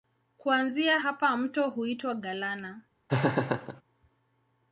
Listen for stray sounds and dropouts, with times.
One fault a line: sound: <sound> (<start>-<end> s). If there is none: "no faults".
sound: laugh (3.1-3.8 s)